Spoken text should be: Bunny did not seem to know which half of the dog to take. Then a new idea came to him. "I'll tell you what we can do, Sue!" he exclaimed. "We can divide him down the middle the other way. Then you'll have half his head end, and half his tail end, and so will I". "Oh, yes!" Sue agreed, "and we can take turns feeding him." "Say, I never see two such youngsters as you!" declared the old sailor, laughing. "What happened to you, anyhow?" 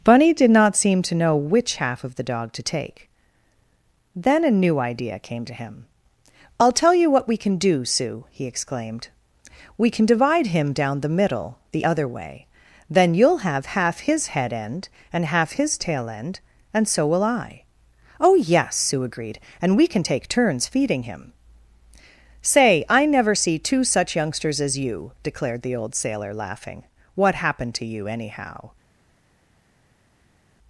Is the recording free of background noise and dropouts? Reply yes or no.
yes